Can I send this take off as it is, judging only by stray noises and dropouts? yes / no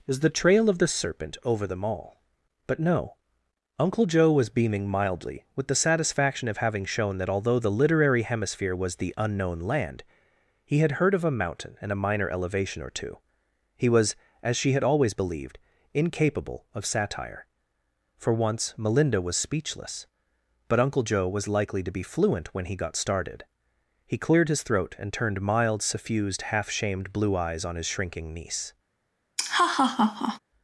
no